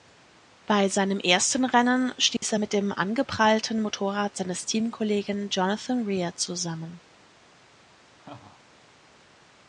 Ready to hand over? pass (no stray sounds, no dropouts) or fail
fail